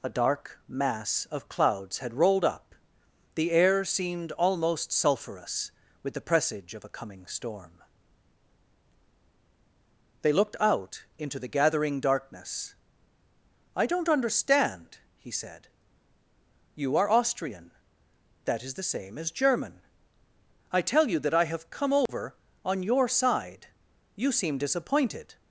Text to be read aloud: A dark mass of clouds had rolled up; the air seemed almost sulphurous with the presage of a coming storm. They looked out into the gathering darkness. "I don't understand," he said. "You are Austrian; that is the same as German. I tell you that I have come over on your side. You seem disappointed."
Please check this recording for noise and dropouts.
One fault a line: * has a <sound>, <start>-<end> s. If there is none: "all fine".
* has a dropout, 22.1-22.1 s